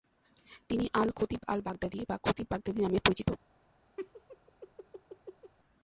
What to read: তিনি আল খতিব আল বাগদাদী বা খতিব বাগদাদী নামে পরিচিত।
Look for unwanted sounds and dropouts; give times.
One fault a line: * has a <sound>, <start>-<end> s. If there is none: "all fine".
* has a laugh, 4.0-5.5 s